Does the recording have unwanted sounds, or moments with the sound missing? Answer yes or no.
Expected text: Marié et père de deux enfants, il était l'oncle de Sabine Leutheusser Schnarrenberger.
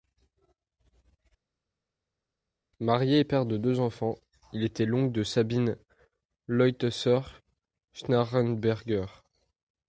no